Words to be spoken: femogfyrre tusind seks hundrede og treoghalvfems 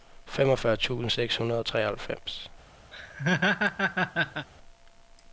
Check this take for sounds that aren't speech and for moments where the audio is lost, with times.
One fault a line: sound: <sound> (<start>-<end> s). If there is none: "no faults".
sound: laugh (2.9-4.5 s)